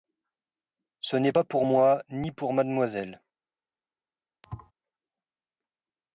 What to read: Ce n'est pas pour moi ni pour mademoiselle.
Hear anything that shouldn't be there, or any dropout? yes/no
yes